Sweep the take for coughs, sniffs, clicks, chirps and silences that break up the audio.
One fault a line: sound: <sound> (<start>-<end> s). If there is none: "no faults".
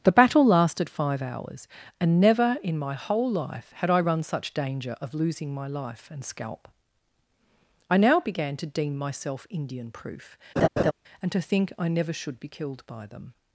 sound: laugh (10.6-10.9 s)